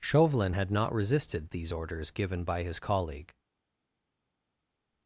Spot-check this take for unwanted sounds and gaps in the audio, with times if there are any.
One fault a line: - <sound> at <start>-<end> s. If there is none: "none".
none